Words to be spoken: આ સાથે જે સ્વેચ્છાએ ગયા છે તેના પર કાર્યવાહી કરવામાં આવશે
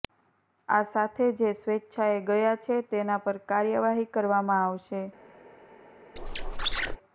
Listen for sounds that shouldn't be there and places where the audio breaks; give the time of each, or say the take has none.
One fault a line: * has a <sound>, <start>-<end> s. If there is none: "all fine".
* has a squeak, 6.2-7.0 s